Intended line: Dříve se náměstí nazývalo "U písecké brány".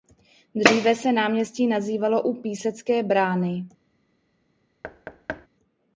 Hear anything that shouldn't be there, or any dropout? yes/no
yes